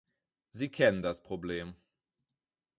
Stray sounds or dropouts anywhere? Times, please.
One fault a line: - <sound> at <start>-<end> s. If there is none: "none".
none